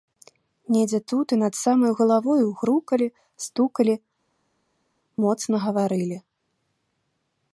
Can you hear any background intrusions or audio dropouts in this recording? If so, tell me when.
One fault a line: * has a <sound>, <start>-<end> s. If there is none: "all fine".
all fine